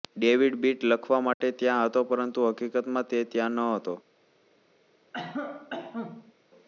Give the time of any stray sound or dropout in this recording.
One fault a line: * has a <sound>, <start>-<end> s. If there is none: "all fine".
* has a dropout, 1.3-1.4 s
* has a cough, 5.1-6.3 s